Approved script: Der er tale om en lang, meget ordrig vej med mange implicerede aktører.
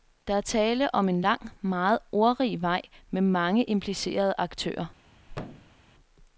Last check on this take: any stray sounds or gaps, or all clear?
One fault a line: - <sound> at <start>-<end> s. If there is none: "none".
- thud at 5.3-5.8 s